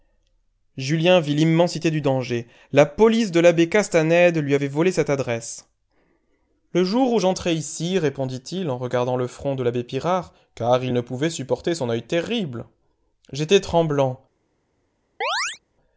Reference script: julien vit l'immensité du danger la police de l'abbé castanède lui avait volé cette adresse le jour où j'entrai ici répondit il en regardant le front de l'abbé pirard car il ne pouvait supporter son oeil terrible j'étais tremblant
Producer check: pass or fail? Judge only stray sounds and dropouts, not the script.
fail